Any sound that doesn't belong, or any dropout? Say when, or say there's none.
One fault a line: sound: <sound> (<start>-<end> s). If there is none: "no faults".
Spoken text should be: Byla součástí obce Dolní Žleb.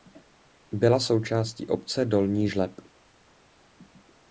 no faults